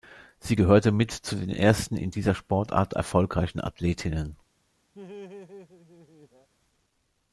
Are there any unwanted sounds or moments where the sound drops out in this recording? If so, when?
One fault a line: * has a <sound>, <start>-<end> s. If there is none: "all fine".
* has a laugh, 4.9-6.5 s